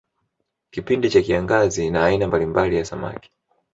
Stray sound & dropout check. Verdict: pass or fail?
pass